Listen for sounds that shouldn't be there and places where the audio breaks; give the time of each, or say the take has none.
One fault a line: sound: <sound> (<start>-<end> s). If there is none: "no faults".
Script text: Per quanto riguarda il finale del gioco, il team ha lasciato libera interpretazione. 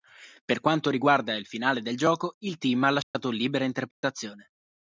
sound: dropout (3.0-3.1 s)
sound: dropout (3.9-4.0 s)